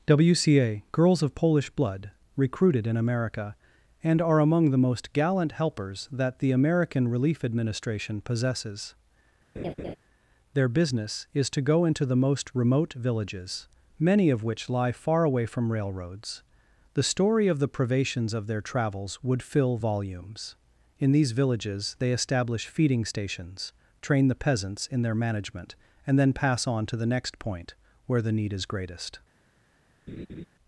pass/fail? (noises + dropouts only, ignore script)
fail